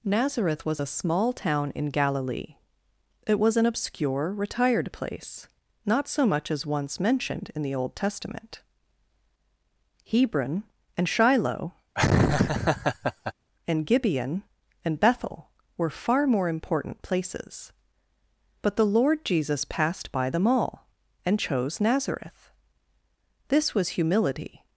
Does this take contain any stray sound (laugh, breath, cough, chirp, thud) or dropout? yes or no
yes